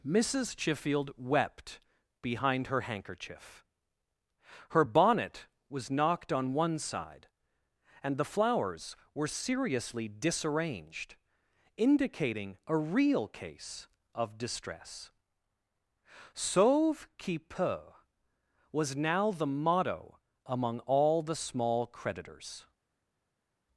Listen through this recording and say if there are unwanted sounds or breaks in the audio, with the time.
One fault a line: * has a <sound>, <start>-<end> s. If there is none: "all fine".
all fine